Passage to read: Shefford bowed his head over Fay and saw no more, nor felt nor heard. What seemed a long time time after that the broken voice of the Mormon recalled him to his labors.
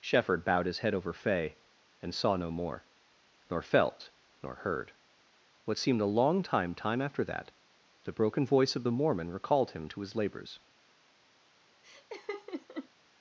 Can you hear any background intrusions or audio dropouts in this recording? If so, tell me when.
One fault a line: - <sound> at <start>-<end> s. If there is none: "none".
- laugh at 11.8-12.9 s